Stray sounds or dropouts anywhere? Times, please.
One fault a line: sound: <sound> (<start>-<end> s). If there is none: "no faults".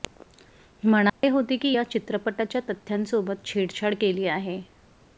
sound: dropout (1.1-1.2 s)